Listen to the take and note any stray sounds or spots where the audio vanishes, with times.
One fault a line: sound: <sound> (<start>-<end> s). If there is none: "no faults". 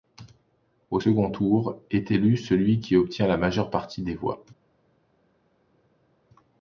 no faults